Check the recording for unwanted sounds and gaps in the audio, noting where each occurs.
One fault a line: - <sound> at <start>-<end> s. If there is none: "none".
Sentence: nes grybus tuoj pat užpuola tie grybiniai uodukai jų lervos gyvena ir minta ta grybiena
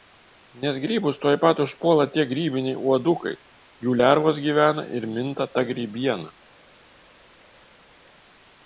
none